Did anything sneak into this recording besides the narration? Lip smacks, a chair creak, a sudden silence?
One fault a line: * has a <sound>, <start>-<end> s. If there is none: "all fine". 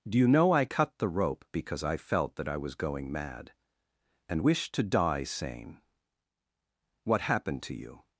all fine